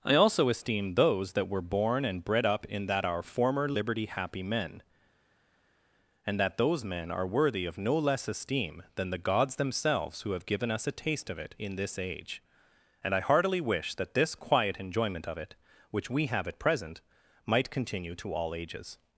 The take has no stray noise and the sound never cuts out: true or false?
true